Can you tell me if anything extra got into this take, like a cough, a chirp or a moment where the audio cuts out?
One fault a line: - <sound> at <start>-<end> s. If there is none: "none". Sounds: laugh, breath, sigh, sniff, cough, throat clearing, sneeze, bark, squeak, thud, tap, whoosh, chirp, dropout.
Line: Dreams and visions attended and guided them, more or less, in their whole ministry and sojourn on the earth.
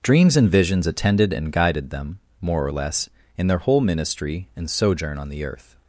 none